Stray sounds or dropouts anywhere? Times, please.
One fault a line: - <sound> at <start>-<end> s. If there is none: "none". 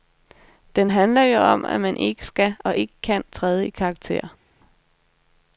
none